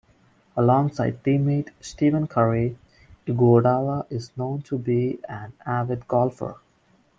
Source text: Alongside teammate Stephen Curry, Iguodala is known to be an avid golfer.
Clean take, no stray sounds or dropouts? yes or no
yes